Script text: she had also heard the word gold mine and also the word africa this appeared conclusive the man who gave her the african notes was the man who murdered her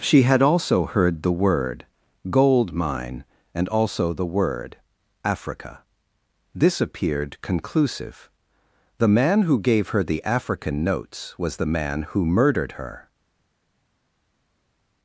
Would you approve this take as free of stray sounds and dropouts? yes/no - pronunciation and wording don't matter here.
yes